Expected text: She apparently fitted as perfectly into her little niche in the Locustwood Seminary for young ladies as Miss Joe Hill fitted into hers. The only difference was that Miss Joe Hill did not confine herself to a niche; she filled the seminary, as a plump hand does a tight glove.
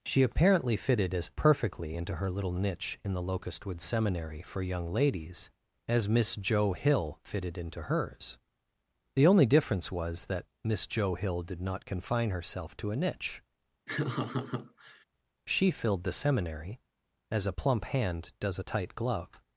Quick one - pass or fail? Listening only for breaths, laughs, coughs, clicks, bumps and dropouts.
fail